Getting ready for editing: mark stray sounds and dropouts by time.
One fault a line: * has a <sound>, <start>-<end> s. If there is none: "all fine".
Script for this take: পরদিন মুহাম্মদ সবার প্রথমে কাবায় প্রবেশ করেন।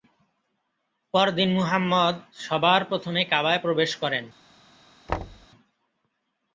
* has a thud, 5.1-5.5 s